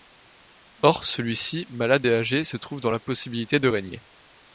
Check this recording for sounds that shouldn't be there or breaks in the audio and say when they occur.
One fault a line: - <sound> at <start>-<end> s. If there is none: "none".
none